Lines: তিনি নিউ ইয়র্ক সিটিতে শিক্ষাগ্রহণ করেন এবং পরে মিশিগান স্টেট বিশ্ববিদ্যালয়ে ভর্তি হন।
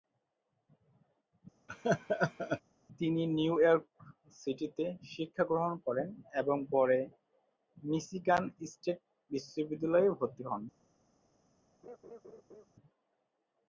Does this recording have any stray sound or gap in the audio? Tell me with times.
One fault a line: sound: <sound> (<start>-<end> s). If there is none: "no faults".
sound: laugh (1.7-2.6 s)
sound: laugh (11.8-12.7 s)